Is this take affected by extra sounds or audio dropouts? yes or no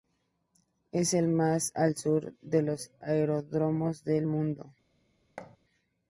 yes